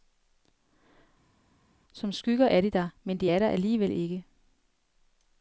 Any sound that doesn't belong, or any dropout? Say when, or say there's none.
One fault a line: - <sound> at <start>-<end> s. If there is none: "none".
none